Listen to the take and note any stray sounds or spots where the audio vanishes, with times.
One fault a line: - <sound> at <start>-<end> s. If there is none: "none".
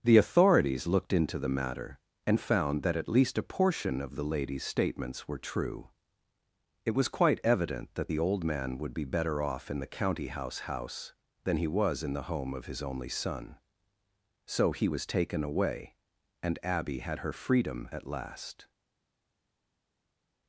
none